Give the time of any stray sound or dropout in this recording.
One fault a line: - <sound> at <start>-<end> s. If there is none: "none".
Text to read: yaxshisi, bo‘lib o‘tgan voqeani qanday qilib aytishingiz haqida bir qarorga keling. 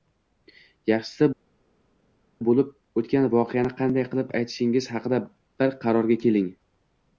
none